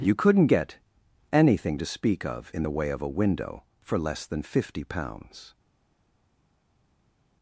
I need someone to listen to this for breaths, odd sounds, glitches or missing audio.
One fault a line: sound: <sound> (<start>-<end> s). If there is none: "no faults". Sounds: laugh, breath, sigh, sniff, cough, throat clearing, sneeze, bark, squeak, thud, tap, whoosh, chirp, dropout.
no faults